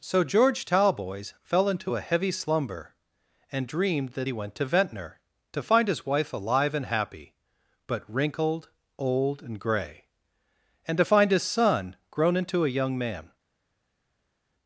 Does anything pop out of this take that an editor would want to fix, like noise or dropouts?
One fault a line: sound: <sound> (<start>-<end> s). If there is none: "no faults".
no faults